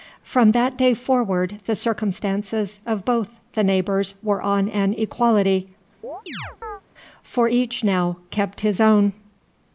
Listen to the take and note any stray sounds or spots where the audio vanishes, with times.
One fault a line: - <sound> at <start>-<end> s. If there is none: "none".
- chirp at 6.0-6.8 s